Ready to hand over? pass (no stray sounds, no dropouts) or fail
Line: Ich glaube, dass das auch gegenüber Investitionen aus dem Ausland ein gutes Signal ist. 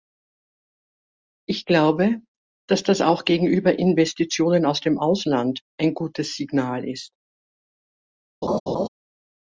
fail